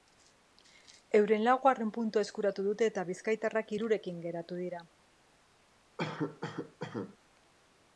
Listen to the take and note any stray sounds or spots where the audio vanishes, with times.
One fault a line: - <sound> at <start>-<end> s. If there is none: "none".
- cough at 6.0-7.2 s